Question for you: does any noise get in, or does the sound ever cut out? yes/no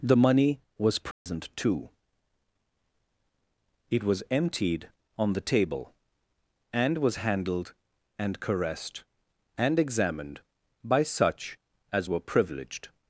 yes